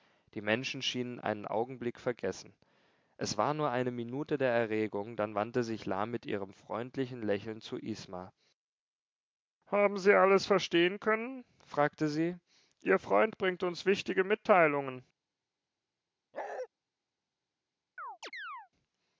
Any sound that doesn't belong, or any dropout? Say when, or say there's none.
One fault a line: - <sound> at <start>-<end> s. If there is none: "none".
- bark at 16.3-16.7 s
- chirp at 18.0-18.7 s